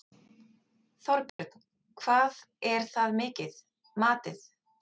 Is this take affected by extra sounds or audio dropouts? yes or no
yes